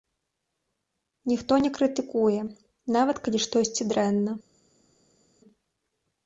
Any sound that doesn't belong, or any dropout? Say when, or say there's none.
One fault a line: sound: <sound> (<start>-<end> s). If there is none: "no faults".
no faults